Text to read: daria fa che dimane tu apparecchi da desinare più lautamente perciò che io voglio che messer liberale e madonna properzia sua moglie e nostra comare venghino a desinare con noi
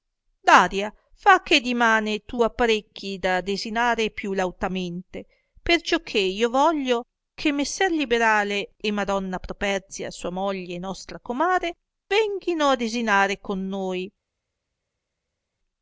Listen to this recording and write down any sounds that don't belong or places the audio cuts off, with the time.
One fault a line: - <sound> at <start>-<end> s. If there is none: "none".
none